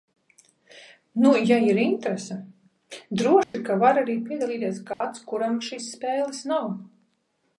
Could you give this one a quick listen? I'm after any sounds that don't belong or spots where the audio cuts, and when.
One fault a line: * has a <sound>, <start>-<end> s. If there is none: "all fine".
* has a dropout, 3.4-3.5 s
* has a dropout, 4.9-5.0 s